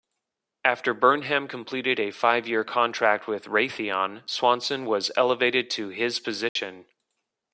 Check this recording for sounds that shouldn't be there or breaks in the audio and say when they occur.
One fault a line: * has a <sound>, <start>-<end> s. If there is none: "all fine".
* has a dropout, 6.5-6.6 s